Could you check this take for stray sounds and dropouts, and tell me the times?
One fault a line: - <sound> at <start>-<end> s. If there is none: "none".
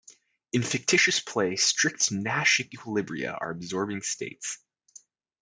none